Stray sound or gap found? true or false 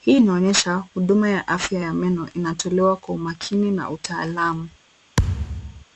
true